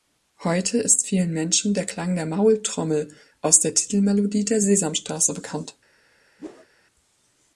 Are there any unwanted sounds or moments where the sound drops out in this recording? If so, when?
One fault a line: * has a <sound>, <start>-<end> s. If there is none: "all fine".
* has a whoosh, 6.4-6.7 s